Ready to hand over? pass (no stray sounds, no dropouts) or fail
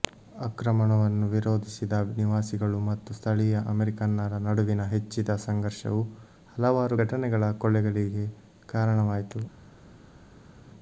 pass